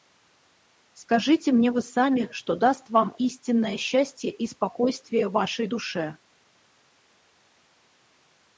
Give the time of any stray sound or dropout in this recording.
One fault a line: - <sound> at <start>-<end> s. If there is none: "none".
none